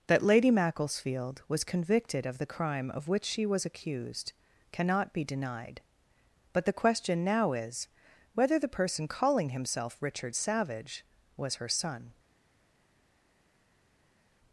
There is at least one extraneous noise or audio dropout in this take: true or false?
false